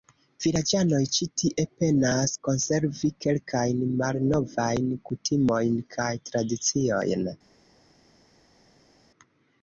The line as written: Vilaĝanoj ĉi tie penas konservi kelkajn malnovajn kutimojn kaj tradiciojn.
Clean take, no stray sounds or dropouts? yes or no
yes